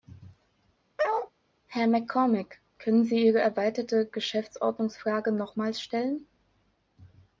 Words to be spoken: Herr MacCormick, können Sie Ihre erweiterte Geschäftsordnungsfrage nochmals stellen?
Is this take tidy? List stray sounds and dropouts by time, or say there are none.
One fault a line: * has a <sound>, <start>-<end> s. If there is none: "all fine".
* has a bark, 1.0-1.3 s